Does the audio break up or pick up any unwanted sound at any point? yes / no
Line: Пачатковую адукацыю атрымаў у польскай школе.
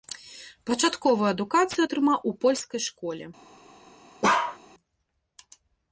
yes